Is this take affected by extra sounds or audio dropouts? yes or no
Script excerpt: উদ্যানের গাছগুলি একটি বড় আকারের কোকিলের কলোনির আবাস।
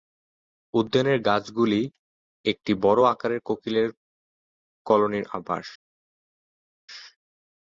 no